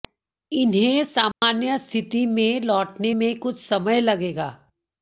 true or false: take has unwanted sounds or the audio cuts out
true